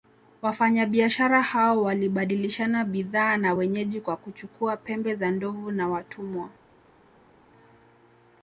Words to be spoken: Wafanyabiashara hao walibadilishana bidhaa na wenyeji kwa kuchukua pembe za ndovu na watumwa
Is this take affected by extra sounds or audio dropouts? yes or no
no